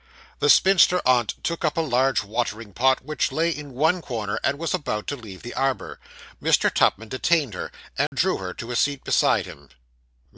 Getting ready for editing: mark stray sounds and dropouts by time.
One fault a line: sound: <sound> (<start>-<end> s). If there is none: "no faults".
sound: dropout (8.1-8.1 s)